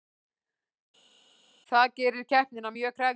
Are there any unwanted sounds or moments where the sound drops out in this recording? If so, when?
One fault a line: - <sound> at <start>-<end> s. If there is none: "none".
none